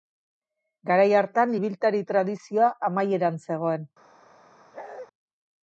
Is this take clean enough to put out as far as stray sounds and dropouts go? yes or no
no